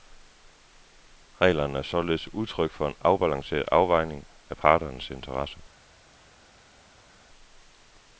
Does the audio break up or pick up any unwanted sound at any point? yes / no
no